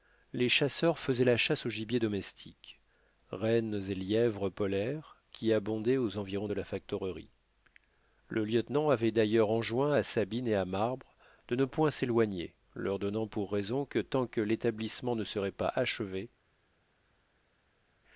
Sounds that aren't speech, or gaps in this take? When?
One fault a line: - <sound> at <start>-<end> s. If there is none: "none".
none